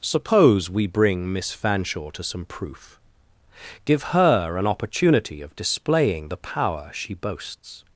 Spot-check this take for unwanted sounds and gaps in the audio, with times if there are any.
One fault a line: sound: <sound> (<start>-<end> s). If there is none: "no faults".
no faults